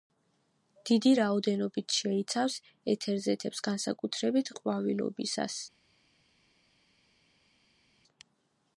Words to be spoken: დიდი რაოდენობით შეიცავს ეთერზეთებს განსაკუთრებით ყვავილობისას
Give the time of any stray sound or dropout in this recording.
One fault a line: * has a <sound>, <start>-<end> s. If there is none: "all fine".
all fine